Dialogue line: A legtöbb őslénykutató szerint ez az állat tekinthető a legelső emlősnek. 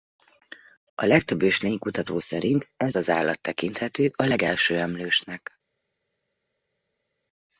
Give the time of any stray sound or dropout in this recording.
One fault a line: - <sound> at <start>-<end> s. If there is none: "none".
none